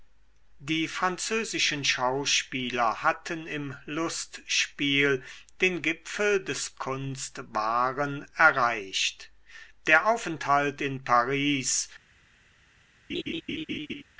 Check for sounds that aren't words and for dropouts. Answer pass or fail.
fail